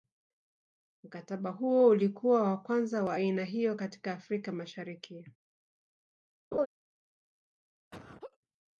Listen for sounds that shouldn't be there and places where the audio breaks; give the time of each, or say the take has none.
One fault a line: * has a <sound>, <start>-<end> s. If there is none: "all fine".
* has a laugh, 6.5-6.7 s
* has a laugh, 7.9-8.4 s